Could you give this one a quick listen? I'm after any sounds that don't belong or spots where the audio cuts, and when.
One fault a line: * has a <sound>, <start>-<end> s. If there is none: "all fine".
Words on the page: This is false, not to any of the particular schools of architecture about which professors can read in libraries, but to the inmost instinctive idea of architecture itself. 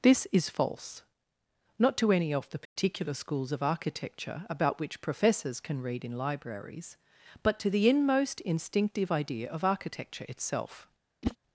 * has a dropout, 2.7-2.8 s
* has a whoosh, 11.2-11.4 s